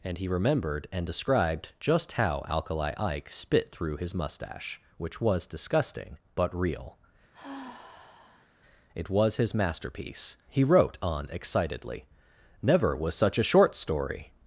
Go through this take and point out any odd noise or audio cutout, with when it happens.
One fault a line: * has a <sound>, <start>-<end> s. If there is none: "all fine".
* has a sigh, 7.3-8.5 s